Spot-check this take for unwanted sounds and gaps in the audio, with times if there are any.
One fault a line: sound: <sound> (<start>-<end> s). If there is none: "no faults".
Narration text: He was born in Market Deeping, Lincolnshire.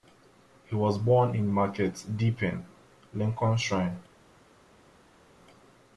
no faults